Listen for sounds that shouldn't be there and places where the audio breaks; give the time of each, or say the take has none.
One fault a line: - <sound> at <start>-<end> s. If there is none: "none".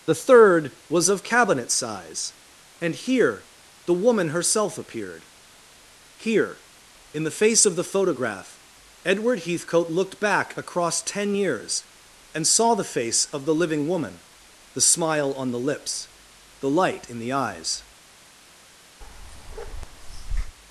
- bark at 19.0-20.6 s